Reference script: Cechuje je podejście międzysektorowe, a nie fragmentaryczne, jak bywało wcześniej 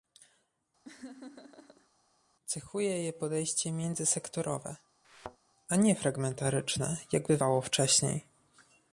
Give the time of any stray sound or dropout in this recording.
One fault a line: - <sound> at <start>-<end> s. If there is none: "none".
- laugh at 0.8-1.9 s
- thud at 5.0-5.4 s